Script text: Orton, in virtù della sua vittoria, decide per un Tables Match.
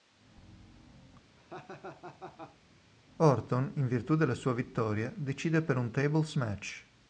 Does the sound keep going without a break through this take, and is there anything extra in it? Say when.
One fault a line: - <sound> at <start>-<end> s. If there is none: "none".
- laugh at 1.4-2.6 s